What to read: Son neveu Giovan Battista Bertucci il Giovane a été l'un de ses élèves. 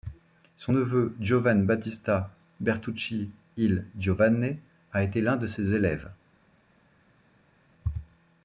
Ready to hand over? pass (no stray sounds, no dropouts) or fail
pass